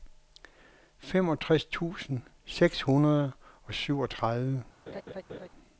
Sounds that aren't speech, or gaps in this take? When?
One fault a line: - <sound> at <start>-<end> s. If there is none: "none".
- laugh at 4.9-5.5 s